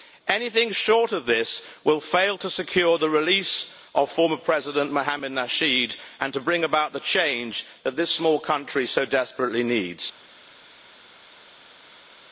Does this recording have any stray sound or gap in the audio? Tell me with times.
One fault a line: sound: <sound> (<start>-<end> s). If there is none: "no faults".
no faults